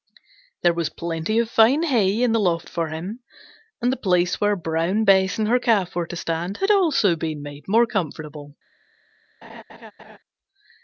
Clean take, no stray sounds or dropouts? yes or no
no